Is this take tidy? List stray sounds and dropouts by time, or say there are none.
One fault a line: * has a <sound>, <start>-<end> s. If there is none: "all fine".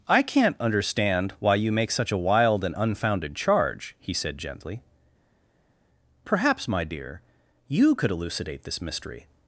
all fine